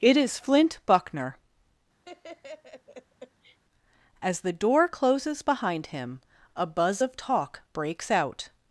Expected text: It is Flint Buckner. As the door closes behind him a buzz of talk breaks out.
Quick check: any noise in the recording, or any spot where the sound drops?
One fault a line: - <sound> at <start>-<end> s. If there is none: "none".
- laugh at 2.0-3.6 s